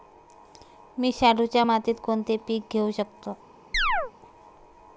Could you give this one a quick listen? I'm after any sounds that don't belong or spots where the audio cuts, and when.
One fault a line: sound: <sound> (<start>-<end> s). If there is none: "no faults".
sound: chirp (3.7-4.1 s)